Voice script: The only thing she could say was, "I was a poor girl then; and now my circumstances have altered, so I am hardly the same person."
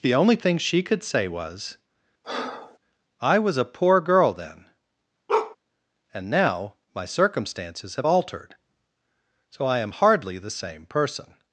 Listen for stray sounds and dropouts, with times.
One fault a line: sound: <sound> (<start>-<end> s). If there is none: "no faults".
sound: breath (2.2-2.8 s)
sound: bark (5.3-5.6 s)